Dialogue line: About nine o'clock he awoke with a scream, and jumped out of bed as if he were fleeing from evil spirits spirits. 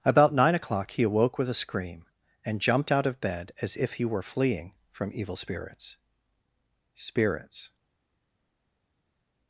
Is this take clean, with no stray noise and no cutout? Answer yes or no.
yes